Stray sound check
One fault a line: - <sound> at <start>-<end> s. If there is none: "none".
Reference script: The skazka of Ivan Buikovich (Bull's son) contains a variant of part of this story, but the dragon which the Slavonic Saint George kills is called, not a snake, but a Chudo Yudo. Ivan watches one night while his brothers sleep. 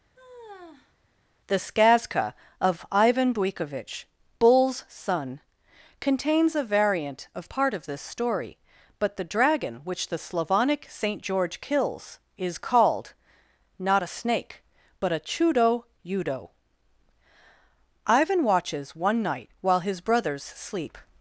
- sigh at 0.2-0.9 s